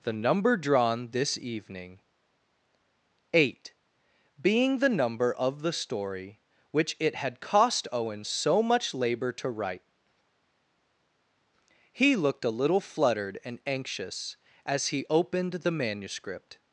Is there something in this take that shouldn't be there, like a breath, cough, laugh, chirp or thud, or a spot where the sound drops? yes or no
no